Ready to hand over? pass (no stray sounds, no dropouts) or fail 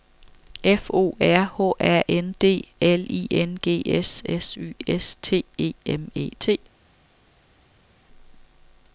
pass